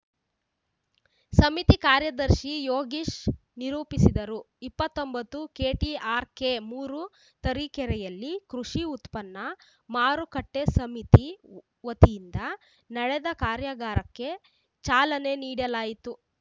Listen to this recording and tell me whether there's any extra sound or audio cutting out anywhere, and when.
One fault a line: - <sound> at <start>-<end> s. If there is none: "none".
none